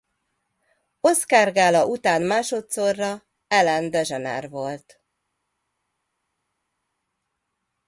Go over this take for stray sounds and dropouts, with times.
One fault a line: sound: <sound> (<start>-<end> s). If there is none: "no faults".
no faults